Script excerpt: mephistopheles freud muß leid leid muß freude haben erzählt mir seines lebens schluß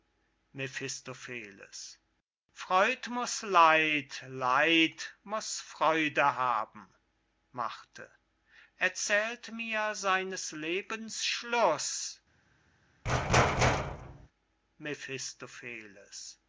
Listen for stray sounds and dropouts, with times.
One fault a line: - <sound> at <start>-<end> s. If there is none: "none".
- thud at 13.0-14.3 s